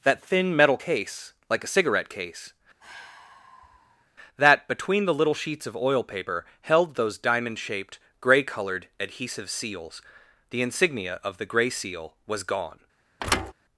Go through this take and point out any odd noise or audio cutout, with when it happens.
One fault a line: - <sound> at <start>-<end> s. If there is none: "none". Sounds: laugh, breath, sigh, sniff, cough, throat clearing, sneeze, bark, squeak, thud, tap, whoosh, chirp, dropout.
- sigh at 2.8-4.1 s
- thud at 13.2-13.5 s